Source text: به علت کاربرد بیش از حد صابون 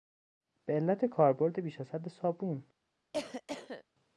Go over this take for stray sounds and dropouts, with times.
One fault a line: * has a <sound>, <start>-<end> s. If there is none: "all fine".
* has a cough, 3.1-3.8 s